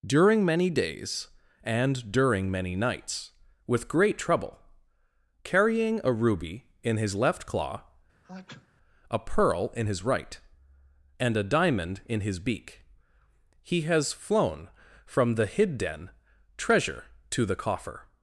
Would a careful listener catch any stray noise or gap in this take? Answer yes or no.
yes